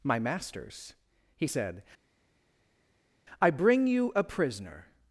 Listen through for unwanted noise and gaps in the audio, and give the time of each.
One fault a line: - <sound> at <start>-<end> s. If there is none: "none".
none